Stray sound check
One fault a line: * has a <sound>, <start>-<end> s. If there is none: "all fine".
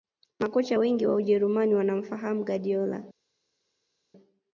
all fine